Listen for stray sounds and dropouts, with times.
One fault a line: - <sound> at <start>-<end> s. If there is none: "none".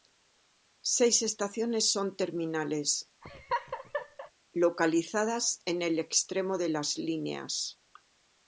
- laugh at 3.2-4.3 s